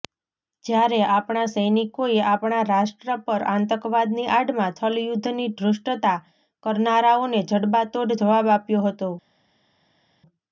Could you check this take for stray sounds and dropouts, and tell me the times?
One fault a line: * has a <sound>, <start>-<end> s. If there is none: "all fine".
all fine